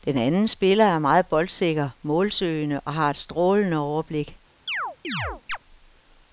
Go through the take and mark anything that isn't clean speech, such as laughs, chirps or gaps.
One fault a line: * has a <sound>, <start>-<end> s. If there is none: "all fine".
* has a chirp, 4.7-5.6 s